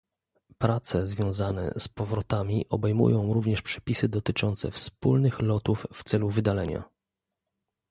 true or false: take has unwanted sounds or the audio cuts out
false